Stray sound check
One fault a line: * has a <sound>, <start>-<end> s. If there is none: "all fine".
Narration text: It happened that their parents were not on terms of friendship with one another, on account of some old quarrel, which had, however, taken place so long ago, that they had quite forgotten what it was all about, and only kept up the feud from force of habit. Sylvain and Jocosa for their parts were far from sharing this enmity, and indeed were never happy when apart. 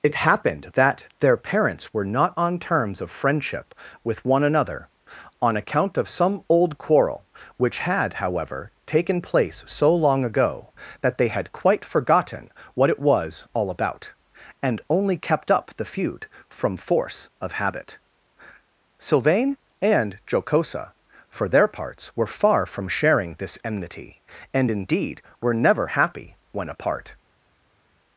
all fine